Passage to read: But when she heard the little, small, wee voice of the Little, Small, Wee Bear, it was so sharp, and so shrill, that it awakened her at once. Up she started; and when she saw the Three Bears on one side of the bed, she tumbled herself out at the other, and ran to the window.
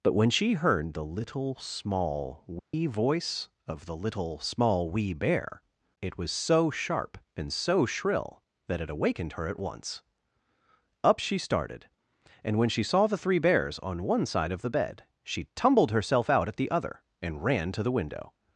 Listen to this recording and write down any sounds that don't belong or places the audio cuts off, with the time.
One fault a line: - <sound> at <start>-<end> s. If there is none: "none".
- dropout at 2.6-2.7 s